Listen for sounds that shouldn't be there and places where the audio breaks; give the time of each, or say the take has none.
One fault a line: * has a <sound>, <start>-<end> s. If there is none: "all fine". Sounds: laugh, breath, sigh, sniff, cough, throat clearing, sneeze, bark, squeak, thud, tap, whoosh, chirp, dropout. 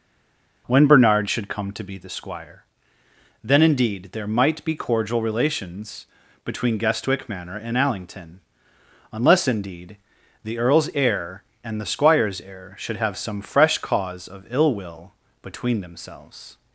all fine